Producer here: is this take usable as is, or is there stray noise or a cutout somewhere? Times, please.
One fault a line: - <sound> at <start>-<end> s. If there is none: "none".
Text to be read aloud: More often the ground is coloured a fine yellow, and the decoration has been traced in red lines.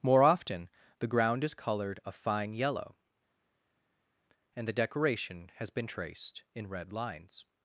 none